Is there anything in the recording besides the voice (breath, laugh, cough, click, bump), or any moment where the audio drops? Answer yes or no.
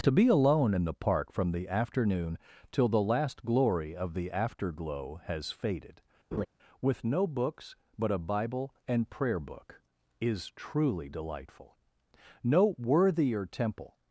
yes